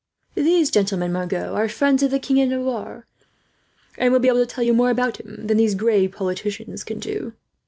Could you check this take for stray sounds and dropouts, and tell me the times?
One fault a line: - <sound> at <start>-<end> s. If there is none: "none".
none